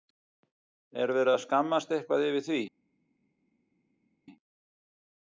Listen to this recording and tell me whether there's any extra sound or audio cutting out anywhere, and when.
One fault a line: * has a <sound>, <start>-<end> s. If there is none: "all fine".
all fine